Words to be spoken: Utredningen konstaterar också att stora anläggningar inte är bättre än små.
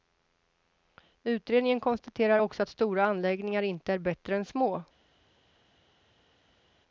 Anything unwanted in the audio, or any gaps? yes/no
no